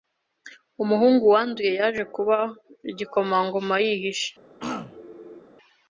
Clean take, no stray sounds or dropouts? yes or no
no